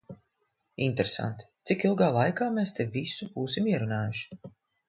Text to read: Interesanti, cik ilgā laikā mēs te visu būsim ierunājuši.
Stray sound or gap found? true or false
false